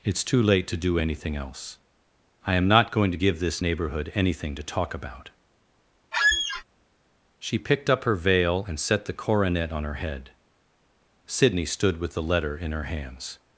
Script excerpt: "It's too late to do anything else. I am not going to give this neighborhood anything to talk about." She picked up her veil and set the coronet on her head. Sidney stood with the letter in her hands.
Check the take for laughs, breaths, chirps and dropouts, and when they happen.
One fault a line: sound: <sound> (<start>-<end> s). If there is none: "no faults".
sound: squeak (6.1-6.6 s)